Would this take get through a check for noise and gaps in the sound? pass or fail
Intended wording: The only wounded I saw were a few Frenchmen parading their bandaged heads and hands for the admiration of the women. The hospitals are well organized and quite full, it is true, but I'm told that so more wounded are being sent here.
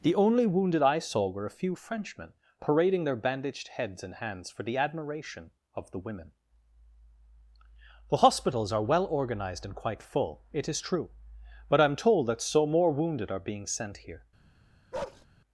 fail